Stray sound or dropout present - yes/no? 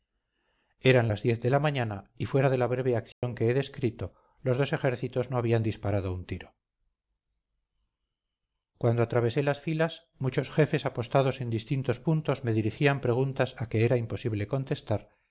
yes